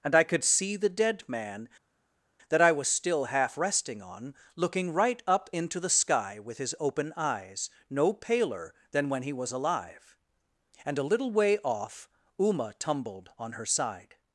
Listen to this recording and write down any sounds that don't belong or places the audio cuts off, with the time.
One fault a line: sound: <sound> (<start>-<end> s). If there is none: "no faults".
no faults